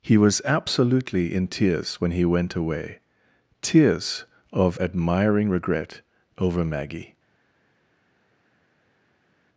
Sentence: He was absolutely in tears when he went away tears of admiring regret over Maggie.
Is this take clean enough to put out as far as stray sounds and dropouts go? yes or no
yes